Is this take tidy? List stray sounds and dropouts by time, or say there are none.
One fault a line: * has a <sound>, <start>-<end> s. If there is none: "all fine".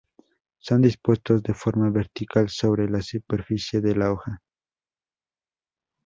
all fine